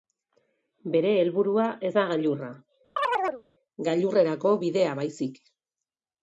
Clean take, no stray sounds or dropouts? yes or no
no